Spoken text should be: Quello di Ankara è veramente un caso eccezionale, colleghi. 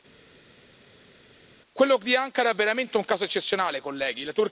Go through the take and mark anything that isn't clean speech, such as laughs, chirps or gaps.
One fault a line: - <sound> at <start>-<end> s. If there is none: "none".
none